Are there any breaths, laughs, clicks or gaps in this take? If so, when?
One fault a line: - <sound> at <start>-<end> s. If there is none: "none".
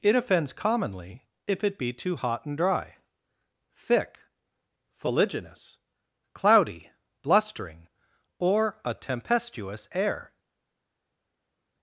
none